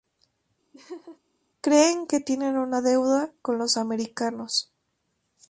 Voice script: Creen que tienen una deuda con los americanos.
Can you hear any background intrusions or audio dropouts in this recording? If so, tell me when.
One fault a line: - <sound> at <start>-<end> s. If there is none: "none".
- laugh at 0.7-1.2 s